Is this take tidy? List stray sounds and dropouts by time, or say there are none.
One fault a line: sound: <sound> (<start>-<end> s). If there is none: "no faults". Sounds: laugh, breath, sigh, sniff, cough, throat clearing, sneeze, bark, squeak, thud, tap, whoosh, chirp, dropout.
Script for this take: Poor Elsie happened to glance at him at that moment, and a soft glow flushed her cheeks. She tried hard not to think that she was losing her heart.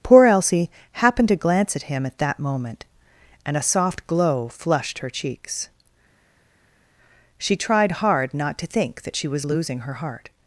no faults